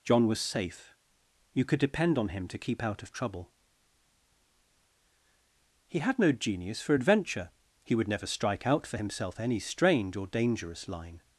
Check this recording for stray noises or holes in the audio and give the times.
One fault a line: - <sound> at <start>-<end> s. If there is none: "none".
none